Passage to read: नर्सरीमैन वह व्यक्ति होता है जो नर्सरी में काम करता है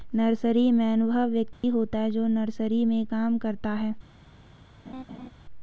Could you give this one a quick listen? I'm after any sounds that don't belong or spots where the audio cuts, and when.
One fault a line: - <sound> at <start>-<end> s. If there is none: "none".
- dropout at 1.5-1.6 s
- laugh at 4.9-5.3 s